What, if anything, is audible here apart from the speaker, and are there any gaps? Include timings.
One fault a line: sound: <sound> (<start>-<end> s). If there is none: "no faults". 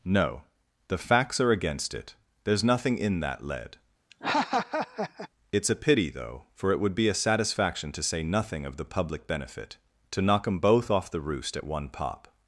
sound: laugh (4.1-5.3 s)